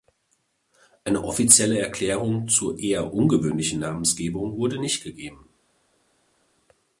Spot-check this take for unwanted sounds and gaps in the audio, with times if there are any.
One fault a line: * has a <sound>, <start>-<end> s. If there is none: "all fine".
all fine